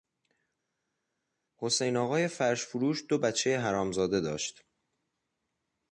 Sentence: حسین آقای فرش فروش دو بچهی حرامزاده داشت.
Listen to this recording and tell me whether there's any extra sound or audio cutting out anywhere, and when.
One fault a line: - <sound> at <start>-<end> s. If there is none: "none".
none